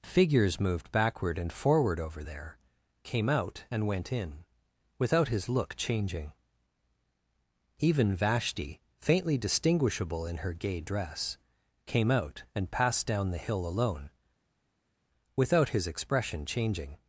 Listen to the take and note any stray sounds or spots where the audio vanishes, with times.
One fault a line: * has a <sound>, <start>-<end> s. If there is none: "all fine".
all fine